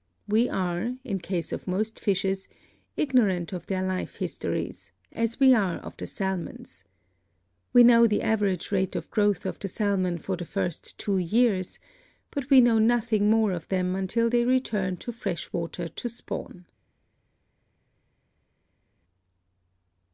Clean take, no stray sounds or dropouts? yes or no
yes